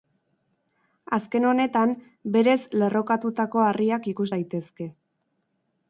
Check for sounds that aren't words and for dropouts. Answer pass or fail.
pass